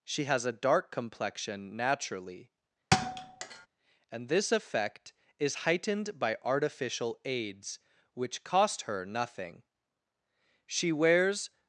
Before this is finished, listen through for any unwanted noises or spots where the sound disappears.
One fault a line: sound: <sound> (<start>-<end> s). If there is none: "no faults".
sound: thud (2.9-3.7 s)